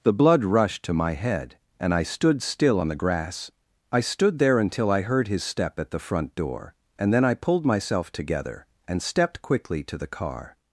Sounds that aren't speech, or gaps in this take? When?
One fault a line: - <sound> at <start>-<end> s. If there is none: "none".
none